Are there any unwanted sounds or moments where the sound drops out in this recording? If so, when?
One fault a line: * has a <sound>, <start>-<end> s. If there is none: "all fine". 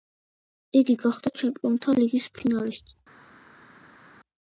all fine